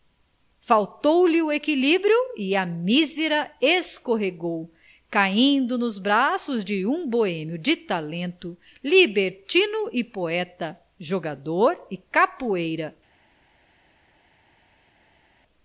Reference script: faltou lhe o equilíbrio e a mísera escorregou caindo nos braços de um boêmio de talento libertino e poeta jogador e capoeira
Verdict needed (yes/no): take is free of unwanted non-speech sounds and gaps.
yes